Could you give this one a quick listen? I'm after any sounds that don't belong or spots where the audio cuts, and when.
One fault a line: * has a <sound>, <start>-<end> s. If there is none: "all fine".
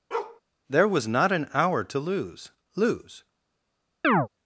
* has a bark, 0.1-0.4 s
* has a chirp, 4.0-4.3 s